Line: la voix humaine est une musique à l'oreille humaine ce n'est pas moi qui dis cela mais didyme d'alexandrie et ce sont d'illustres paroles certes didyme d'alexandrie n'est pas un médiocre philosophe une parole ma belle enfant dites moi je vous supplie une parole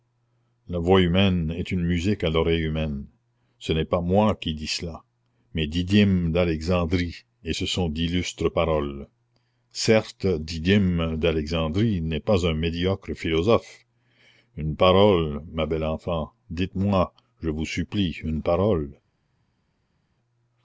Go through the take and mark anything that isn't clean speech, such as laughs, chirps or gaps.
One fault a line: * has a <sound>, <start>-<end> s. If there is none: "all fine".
all fine